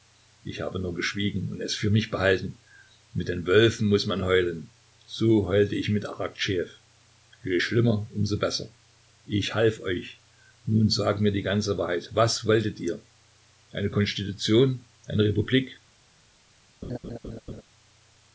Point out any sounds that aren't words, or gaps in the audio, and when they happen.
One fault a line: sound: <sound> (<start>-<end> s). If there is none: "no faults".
sound: laugh (16.8-17.6 s)